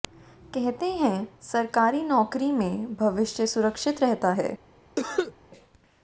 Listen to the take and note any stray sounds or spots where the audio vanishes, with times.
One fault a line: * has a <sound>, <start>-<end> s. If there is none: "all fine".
* has a cough, 5.0-5.3 s